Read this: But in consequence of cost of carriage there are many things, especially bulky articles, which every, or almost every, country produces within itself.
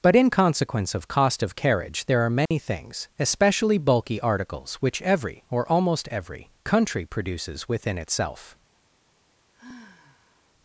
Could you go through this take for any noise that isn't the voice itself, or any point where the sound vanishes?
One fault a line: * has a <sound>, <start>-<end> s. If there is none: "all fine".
* has a dropout, 2.5-2.5 s
* has a sigh, 9.5-10.5 s